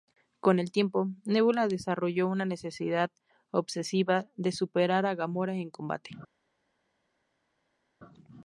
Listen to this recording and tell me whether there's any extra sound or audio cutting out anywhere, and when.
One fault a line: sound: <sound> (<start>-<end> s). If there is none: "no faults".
no faults